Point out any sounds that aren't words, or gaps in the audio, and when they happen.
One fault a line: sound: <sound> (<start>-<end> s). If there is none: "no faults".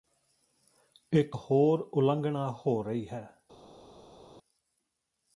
no faults